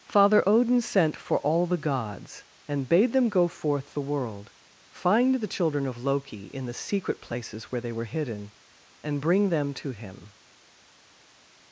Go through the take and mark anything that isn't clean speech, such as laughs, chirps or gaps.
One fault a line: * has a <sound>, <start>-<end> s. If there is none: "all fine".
all fine